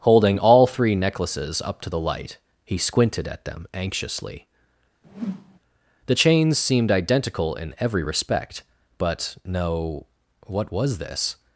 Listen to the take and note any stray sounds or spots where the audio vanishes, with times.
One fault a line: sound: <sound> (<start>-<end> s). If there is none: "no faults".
sound: whoosh (5.0-5.6 s)